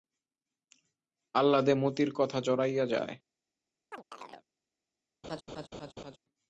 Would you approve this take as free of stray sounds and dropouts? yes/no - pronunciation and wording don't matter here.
no